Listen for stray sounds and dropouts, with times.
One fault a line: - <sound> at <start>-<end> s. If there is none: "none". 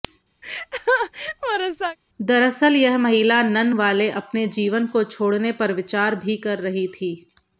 - laugh at 0.4-2.0 s